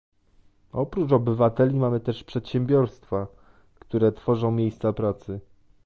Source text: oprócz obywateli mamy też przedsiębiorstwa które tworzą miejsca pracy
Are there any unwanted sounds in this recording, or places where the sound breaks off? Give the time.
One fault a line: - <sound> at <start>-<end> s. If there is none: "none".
none